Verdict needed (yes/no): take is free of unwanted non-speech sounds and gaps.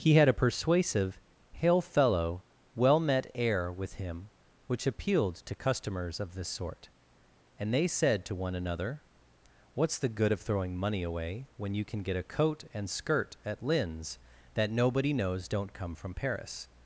yes